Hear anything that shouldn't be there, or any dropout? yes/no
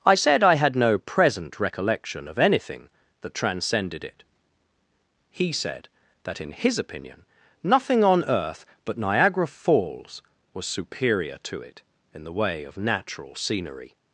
no